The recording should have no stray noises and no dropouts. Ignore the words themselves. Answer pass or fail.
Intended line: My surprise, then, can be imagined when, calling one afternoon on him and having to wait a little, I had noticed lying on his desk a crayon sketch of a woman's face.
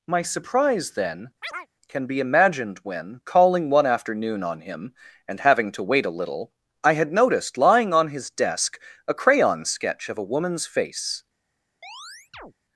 fail